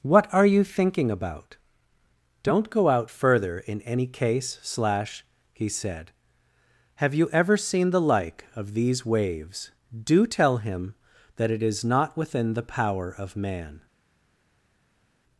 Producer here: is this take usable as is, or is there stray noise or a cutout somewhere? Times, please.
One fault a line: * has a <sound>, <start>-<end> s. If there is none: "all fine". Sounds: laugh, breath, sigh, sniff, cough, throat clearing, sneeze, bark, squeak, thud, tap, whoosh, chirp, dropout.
all fine